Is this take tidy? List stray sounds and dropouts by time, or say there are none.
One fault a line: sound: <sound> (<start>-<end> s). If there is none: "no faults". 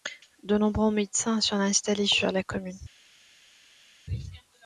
no faults